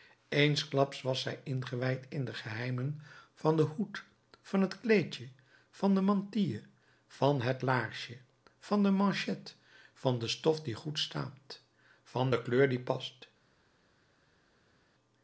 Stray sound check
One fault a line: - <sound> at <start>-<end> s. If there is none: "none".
none